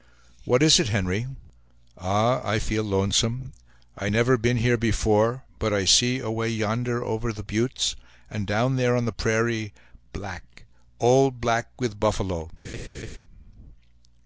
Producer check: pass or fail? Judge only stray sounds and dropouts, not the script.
fail